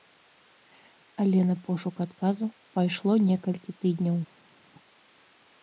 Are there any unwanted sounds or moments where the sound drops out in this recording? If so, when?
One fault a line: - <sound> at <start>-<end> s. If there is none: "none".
none